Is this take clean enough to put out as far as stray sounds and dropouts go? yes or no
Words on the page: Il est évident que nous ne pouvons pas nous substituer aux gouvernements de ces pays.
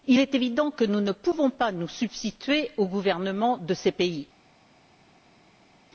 yes